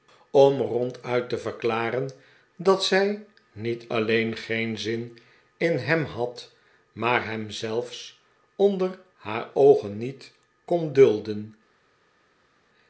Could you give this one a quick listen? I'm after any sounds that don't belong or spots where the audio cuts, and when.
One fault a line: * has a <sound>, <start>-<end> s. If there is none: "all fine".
all fine